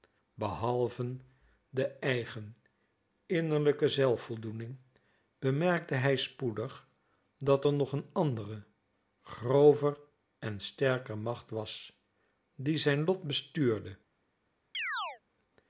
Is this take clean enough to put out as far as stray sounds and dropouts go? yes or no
no